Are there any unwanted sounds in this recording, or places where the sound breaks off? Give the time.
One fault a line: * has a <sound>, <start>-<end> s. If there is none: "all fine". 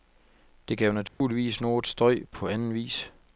* has a dropout, 1.1-1.2 s